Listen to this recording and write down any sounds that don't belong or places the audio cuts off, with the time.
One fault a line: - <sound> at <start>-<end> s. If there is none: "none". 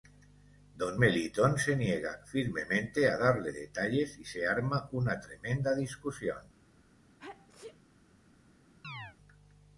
- sneeze at 7.2-7.8 s
- chirp at 8.8-9.2 s